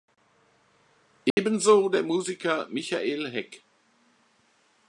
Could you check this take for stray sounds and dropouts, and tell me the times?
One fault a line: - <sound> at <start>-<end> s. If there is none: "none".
- dropout at 1.3-1.4 s